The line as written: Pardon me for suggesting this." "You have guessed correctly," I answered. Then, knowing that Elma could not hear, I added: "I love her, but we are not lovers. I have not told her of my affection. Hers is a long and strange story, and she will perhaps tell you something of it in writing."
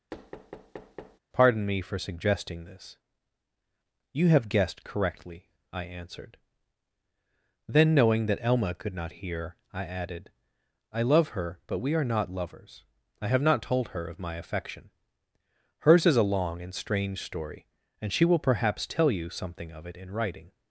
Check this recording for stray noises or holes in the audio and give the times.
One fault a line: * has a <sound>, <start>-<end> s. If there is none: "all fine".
* has a thud, 0.1-1.2 s